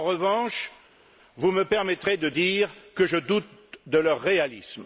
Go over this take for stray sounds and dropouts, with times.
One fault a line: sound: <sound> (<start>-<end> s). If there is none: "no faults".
no faults